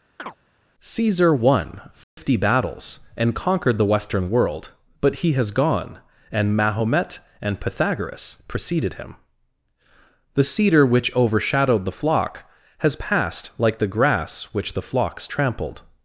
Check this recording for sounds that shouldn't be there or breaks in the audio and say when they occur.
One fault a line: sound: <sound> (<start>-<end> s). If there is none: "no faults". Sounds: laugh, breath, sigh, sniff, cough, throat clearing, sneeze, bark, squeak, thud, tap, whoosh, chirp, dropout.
sound: chirp (0.2-0.4 s)
sound: dropout (2.0-2.2 s)